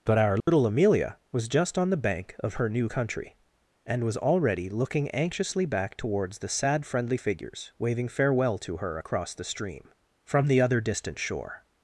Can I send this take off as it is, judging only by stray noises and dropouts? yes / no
no